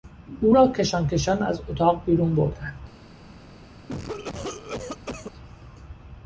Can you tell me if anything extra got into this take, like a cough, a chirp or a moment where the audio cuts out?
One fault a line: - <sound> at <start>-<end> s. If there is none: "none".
- cough at 3.9-5.3 s